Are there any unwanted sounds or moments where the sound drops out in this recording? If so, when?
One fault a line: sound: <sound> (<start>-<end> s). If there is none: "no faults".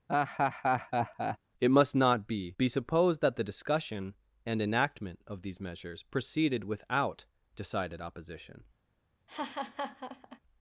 sound: laugh (0.1-1.4 s)
sound: laugh (9.3-10.4 s)